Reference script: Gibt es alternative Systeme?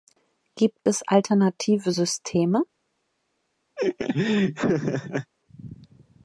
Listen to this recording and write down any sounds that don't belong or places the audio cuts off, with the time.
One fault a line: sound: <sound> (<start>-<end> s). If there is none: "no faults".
sound: laugh (3.8-5.3 s)